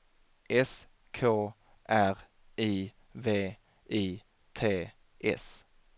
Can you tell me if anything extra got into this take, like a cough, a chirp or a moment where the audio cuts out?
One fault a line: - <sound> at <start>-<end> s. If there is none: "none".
none